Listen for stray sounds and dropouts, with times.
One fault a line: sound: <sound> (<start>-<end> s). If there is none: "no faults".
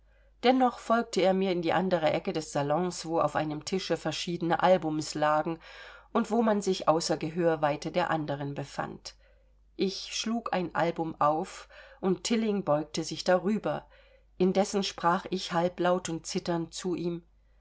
no faults